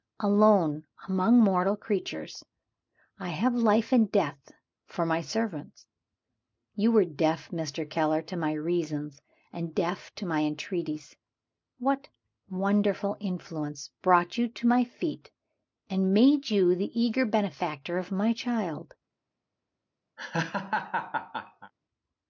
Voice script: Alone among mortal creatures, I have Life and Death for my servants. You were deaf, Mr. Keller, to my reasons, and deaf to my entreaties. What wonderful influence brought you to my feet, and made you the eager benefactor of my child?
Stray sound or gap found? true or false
true